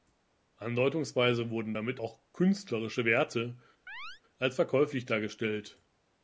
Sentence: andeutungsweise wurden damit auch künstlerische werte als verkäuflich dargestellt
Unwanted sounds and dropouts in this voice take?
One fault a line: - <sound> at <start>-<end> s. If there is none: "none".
- chirp at 3.9-4.2 s